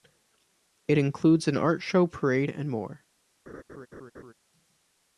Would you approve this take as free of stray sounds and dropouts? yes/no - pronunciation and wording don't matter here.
no